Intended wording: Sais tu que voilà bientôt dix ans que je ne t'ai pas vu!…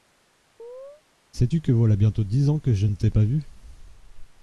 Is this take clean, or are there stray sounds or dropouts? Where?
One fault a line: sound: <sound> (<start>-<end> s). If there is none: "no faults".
sound: chirp (0.6-1.0 s)